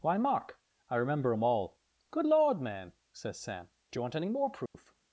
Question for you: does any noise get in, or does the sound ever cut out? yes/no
yes